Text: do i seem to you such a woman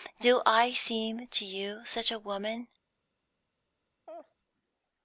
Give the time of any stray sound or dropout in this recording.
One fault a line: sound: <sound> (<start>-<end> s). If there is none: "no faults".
sound: laugh (4.1-4.3 s)